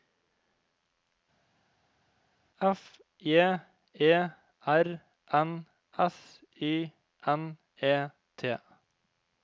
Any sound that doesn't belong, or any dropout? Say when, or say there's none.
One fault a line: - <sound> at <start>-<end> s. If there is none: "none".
none